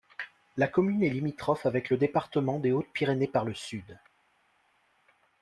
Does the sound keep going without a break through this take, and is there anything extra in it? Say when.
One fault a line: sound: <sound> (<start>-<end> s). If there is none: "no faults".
no faults